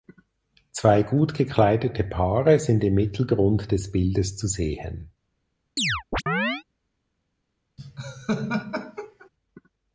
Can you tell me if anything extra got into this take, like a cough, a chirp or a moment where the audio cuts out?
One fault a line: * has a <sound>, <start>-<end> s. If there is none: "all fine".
* has a chirp, 5.8-6.6 s
* has a laugh, 7.8-9.3 s